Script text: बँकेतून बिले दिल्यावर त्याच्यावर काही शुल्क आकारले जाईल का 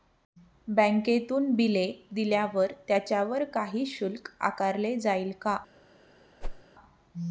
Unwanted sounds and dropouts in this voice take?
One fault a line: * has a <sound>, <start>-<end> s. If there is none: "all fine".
* has a whoosh, 6.4-6.6 s